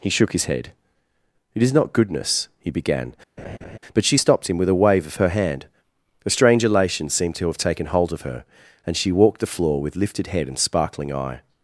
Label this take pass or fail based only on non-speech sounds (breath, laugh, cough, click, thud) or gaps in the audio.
fail